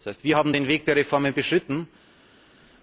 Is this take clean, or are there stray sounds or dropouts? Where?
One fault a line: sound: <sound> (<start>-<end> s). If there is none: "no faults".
no faults